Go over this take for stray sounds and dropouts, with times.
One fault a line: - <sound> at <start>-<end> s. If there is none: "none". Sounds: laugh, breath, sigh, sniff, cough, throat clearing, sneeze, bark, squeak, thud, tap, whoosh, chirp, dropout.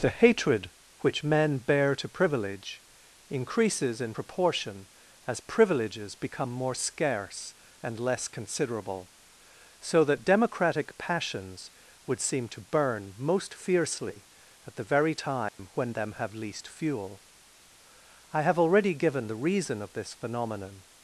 - dropout at 15.5-15.6 s